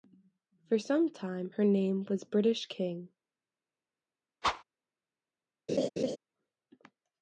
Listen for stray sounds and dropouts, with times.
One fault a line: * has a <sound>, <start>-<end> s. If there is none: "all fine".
* has a whoosh, 4.4-4.6 s
* has a laugh, 5.7-6.2 s